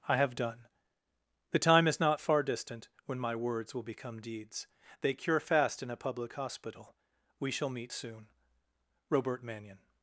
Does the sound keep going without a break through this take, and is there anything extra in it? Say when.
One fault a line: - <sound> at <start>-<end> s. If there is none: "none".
none